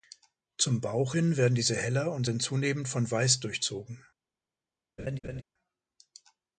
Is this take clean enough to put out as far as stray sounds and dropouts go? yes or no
no